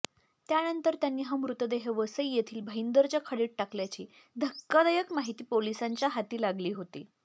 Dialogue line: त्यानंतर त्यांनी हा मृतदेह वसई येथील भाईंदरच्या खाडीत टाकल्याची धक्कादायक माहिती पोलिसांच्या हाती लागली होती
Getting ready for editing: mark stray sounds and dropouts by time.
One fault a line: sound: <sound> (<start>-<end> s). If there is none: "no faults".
no faults